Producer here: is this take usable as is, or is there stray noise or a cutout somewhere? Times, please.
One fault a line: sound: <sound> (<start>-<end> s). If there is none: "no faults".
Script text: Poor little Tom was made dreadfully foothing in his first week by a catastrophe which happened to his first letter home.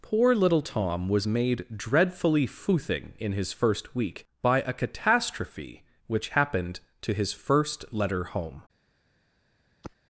sound: sigh (9.8-10.0 s)